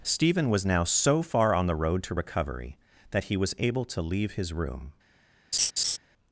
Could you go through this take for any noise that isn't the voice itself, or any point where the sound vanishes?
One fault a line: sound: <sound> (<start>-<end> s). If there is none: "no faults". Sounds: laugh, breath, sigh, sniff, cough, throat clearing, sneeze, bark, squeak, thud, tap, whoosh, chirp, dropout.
sound: laugh (5.5-6.0 s)